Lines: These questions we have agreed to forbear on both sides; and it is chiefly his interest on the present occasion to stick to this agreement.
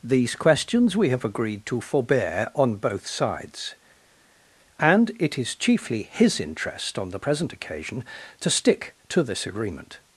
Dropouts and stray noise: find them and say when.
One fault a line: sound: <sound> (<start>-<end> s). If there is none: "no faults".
no faults